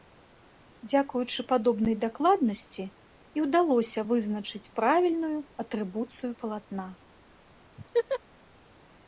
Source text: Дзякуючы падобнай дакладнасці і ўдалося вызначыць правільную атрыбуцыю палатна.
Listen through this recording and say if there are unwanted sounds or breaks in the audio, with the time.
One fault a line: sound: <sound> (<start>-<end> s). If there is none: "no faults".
sound: laugh (7.8-8.2 s)